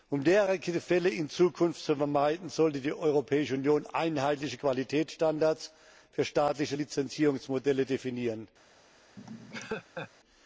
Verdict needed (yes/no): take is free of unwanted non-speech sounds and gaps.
no